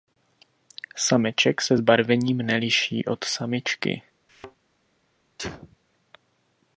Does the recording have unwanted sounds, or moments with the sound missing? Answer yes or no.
yes